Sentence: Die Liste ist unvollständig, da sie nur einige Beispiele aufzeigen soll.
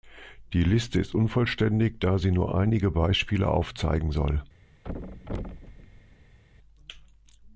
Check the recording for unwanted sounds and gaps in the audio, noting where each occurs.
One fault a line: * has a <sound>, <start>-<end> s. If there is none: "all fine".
* has a thud, 4.8-6.4 s